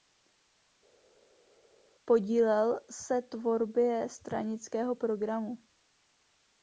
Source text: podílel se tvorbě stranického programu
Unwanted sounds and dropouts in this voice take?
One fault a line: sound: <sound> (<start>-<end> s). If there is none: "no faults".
no faults